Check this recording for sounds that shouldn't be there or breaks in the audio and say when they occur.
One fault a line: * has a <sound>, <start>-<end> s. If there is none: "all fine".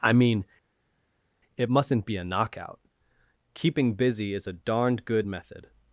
all fine